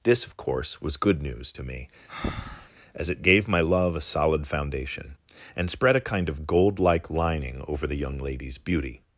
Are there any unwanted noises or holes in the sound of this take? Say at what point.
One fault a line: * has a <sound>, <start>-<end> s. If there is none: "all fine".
* has a breath, 2.1-2.7 s